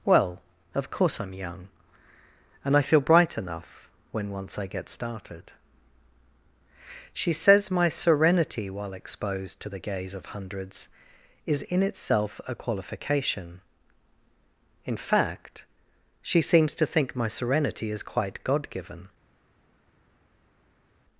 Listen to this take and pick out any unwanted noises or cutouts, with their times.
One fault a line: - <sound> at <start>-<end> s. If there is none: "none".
none